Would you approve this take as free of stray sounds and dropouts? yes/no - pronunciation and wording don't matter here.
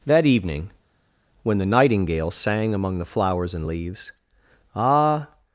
yes